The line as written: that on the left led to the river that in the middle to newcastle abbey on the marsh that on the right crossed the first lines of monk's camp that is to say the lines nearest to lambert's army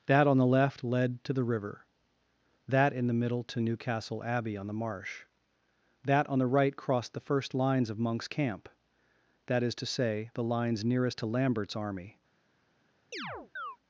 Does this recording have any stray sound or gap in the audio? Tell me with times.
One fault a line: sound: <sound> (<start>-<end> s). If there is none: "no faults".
sound: chirp (13.1-13.8 s)